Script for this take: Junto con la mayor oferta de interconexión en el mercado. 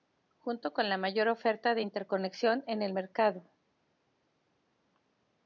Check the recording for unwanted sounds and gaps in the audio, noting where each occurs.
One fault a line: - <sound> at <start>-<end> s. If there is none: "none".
none